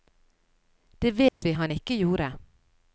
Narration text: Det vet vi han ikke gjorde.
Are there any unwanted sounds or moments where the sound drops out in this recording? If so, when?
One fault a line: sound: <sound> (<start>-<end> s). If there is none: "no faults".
sound: dropout (1.3-1.4 s)